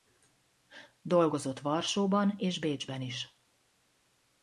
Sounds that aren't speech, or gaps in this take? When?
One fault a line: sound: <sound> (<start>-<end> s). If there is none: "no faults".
no faults